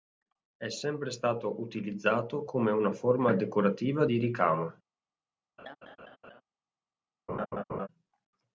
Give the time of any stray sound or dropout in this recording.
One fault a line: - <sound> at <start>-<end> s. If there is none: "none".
- laugh at 5.6-6.4 s
- laugh at 7.3-7.9 s